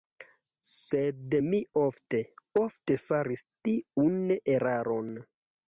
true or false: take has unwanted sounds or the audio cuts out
false